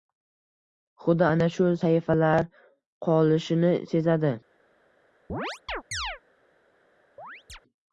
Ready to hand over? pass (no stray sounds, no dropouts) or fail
fail